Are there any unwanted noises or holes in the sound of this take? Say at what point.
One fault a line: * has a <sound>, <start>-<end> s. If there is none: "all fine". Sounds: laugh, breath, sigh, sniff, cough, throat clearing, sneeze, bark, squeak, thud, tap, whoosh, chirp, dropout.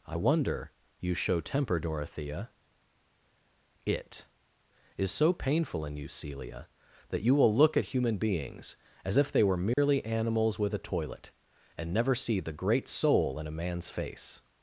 * has a dropout, 9.7-9.8 s